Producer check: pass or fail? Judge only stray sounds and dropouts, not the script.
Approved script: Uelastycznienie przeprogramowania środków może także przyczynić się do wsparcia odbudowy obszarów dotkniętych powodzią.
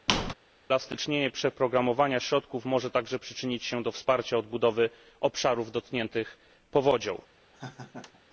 fail